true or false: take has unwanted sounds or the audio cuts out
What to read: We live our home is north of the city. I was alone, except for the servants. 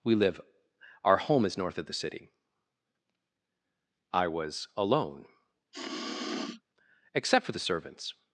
true